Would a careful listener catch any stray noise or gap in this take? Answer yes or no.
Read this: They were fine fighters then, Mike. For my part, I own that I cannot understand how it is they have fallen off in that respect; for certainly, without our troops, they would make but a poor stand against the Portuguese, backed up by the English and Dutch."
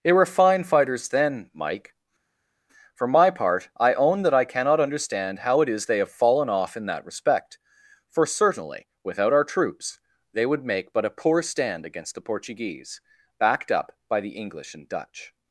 no